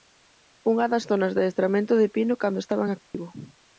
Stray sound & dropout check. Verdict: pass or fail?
fail